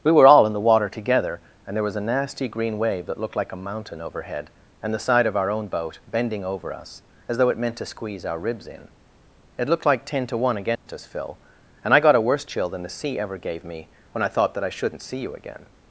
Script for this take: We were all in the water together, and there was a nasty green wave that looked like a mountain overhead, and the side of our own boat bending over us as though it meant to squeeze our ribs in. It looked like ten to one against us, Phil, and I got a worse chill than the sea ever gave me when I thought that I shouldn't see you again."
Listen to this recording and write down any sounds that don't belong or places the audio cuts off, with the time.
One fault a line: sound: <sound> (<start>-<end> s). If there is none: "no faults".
sound: dropout (10.8-10.9 s)